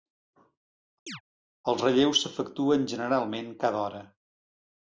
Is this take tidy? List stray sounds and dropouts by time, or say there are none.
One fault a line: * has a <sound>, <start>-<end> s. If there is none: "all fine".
* has a chirp, 1.1-1.2 s